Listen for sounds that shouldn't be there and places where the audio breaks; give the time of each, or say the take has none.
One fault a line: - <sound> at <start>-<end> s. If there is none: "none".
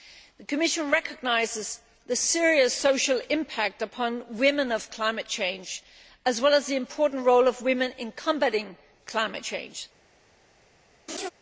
- laugh at 11.1-11.3 s